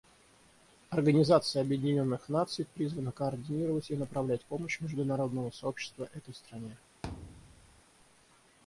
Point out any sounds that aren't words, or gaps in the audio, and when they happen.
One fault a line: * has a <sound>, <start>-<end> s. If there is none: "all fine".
* has a thud, 7.0-7.8 s